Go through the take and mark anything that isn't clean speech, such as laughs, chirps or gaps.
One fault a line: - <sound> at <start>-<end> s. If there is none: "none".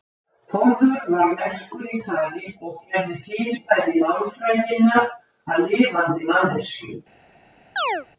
- chirp at 7.8-8.1 s